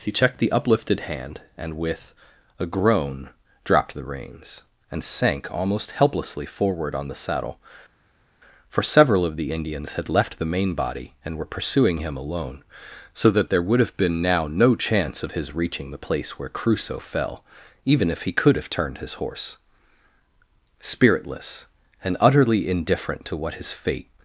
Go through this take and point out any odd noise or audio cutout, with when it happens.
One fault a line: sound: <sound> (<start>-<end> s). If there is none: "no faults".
no faults